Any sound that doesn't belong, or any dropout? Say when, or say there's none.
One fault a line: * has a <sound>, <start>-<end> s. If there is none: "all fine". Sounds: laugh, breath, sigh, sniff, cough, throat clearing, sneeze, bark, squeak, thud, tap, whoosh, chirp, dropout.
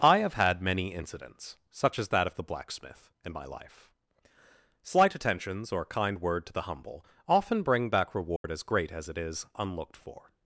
* has a dropout, 8.4-8.4 s